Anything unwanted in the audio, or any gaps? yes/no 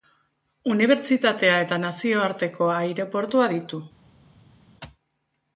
no